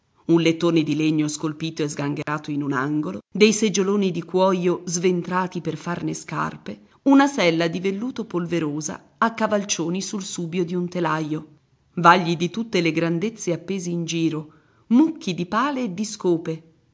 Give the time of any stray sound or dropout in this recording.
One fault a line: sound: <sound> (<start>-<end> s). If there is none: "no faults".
sound: dropout (2.2-2.3 s)